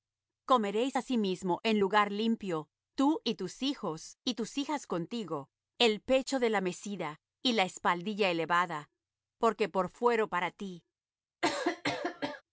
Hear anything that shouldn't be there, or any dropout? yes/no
yes